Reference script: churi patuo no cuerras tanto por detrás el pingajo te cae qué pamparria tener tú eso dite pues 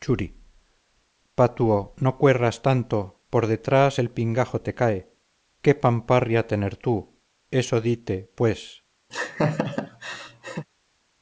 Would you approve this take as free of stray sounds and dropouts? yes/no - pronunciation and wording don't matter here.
no